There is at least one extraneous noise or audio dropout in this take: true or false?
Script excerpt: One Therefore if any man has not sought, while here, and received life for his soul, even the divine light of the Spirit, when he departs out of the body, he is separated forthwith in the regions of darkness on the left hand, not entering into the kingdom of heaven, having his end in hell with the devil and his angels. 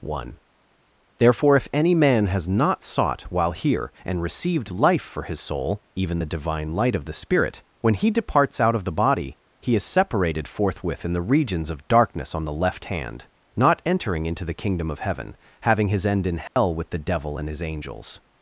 true